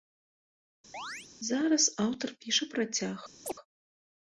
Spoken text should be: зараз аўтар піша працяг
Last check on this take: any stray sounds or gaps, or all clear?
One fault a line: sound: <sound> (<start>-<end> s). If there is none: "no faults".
sound: chirp (0.9-1.3 s)
sound: chirp (3.4-3.5 s)